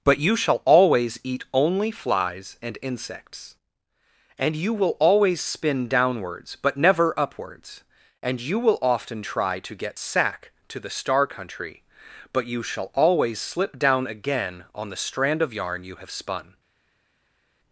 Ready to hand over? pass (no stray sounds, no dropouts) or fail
pass